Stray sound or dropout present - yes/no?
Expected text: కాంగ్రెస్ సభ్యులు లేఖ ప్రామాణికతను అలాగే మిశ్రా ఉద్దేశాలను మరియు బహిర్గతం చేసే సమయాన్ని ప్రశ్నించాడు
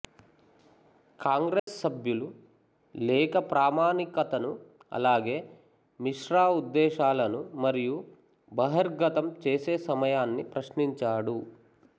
yes